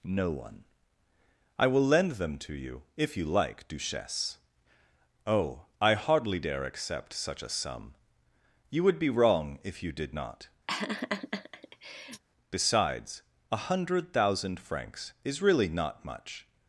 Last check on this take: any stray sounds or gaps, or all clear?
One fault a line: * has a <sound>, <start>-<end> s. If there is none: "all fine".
* has a laugh, 10.7-12.2 s